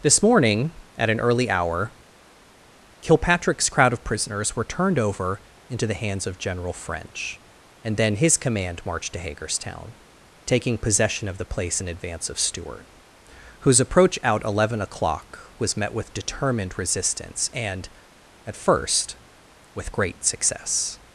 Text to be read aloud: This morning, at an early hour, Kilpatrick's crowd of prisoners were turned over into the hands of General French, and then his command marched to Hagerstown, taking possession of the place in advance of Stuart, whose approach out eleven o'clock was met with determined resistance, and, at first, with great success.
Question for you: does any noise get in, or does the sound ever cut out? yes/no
no